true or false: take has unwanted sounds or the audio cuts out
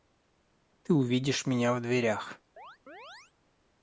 true